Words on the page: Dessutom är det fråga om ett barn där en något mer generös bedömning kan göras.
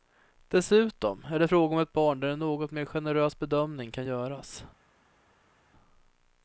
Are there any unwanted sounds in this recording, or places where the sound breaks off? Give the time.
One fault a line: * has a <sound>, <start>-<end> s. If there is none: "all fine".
all fine